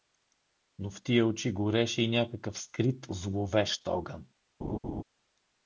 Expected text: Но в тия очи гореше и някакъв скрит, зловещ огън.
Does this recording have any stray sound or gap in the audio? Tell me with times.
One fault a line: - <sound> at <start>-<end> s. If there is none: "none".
- laugh at 4.6-5.0 s